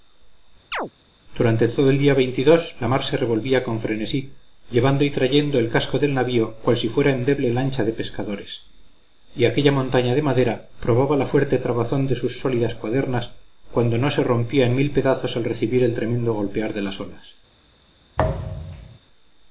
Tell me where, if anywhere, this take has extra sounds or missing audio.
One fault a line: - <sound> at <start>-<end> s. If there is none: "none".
- chirp at 0.7-0.9 s
- thud at 18.2-19.0 s